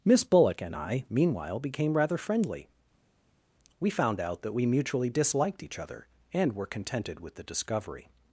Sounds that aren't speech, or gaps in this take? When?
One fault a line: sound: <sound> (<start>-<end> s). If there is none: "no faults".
no faults